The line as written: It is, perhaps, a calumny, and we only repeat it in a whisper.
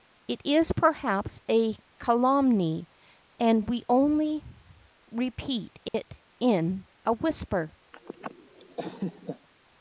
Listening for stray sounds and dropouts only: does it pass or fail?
fail